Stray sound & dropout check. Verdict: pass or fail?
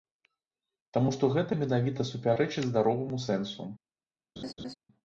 fail